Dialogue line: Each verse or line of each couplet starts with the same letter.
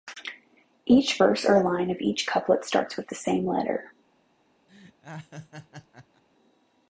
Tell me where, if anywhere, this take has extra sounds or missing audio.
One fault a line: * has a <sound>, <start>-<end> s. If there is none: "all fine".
* has a laugh, 4.7-6.2 s